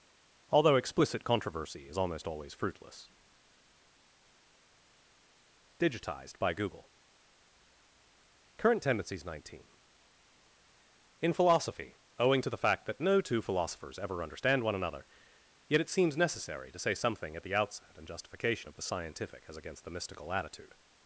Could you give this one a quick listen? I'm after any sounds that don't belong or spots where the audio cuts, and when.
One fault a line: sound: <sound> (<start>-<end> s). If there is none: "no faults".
no faults